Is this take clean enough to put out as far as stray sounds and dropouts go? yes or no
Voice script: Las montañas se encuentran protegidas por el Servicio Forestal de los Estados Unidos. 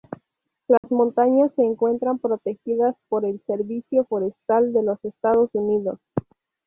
no